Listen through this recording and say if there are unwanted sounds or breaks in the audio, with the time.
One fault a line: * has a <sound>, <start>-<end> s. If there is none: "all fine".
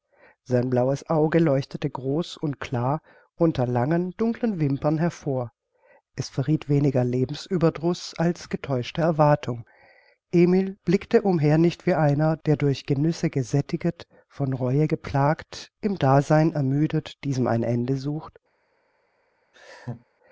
* has a laugh, 19.5-20.1 s